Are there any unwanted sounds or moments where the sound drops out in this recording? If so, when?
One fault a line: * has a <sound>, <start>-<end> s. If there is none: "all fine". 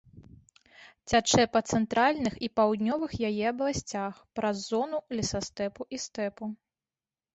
all fine